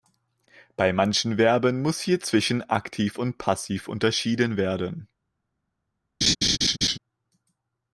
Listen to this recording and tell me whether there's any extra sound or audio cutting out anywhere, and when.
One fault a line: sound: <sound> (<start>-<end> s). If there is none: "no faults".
sound: laugh (6.2-7.0 s)